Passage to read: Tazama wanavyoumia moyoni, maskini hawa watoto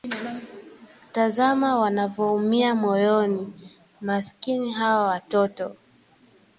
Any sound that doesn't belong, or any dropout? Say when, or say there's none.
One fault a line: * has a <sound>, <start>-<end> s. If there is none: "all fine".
all fine